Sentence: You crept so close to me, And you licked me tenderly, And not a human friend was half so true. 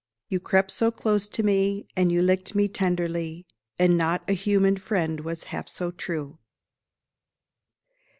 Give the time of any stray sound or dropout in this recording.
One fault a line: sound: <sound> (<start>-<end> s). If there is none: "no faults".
no faults